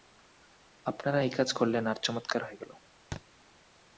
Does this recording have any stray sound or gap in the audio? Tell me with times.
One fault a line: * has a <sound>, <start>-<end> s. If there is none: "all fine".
* has a thud, 3.1-3.2 s